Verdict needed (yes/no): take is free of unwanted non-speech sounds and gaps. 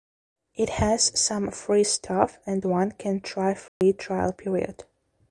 no